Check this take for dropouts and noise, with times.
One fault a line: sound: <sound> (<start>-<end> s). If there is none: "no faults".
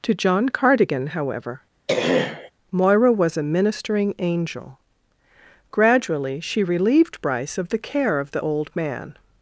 sound: throat clearing (1.9-2.5 s)